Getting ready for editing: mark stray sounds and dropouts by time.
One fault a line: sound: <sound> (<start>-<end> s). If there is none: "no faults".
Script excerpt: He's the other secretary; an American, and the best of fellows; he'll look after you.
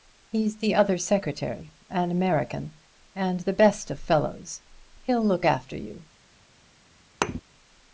sound: thud (7.2-7.4 s)